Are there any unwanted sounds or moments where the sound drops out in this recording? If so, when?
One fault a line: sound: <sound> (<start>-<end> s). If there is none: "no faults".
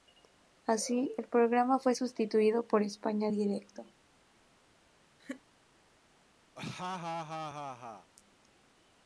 sound: laugh (5.2-5.4 s)
sound: laugh (6.6-8.1 s)